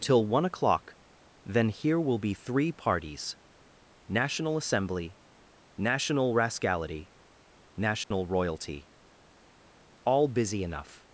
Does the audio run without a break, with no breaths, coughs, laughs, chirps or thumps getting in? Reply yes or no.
no